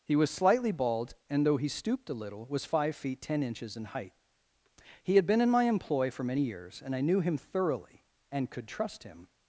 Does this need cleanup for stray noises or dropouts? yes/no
no